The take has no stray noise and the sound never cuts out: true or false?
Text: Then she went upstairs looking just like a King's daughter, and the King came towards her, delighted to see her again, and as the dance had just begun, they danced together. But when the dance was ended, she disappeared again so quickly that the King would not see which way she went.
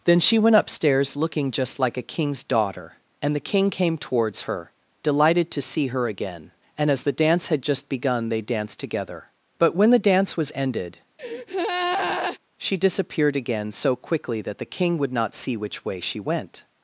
false